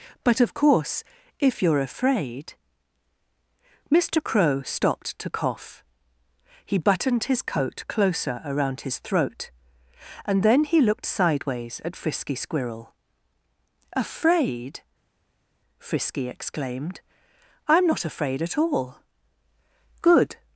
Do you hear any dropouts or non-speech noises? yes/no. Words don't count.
no